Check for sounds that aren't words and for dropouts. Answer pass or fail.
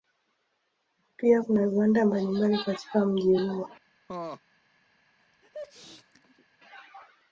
fail